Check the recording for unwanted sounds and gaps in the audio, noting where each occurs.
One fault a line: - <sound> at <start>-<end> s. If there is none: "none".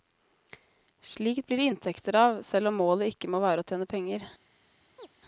- chirp at 5.0-5.1 s